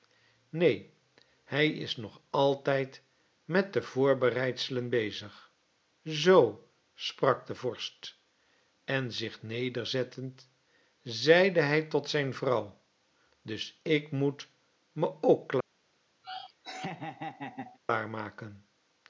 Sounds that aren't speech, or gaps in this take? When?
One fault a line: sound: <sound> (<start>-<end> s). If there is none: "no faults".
sound: laugh (16.2-17.8 s)